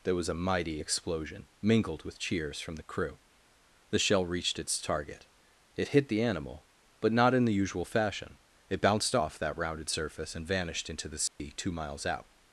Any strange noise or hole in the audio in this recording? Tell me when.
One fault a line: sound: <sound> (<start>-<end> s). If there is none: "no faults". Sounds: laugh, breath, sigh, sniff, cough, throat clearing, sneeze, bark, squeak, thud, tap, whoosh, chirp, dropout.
sound: dropout (11.3-11.4 s)